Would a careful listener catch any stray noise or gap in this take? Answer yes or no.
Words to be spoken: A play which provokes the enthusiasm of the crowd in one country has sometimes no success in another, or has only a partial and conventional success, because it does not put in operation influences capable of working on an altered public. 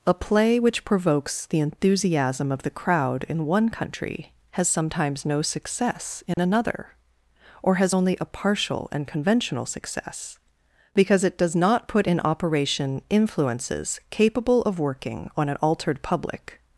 yes